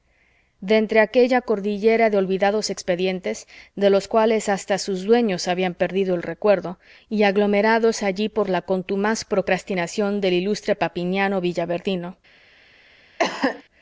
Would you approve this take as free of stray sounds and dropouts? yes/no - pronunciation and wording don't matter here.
no